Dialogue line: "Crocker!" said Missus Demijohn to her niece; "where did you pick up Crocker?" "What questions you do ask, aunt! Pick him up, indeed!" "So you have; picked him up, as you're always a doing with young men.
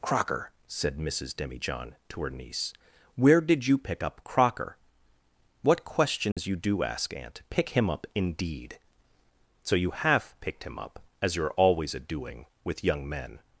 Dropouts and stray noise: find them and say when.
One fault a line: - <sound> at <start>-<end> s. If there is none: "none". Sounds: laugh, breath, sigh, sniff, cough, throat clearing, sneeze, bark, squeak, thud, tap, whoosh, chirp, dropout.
- dropout at 6.3-6.4 s